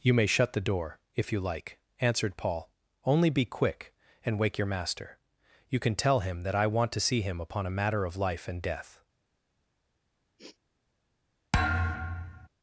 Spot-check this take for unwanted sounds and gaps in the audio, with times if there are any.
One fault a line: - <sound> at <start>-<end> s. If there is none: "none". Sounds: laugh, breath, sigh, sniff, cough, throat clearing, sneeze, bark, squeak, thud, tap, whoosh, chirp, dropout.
- sniff at 10.4-10.6 s
- thud at 11.5-12.5 s